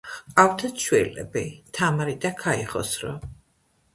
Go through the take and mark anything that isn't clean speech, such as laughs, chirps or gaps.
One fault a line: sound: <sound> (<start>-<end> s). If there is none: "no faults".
no faults